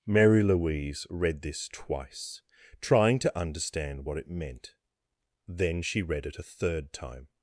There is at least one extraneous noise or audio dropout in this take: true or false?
false